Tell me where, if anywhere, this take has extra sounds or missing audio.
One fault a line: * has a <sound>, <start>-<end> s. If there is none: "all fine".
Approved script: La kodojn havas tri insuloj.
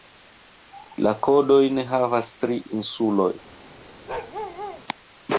* has a bark, 4.1-4.8 s